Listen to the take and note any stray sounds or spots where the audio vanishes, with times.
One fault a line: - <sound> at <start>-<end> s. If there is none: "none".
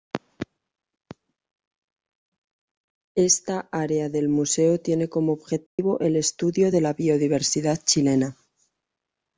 - dropout at 5.7-5.8 s